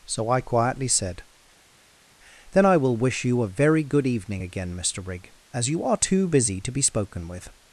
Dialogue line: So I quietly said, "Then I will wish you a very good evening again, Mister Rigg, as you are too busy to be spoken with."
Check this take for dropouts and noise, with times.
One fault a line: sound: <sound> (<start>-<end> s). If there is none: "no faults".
no faults